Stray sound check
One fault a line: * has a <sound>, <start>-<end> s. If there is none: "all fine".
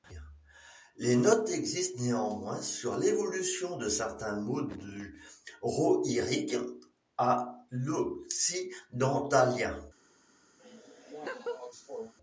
* has a laugh, 10.6-12.1 s